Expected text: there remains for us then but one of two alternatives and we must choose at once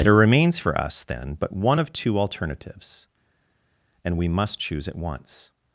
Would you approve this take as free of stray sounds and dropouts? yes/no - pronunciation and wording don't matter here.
yes